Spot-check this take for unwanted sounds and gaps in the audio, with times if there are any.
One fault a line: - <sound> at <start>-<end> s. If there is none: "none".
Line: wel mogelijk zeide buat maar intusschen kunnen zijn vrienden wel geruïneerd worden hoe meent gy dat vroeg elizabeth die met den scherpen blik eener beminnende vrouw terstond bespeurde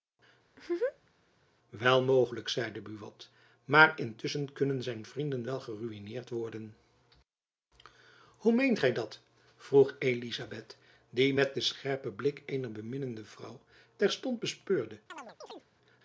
- laugh at 0.5-1.2 s
- chirp at 15.1-15.7 s